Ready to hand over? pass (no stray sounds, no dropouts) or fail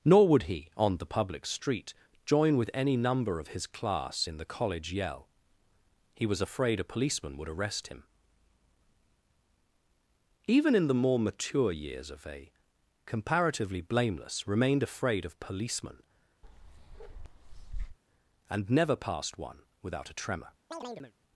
fail